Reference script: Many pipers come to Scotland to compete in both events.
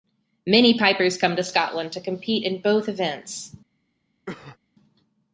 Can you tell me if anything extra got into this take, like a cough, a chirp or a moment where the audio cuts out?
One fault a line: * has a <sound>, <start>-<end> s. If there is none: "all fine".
* has a cough, 4.3-4.6 s